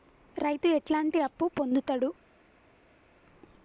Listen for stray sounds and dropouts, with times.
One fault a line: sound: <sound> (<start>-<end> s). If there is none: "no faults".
no faults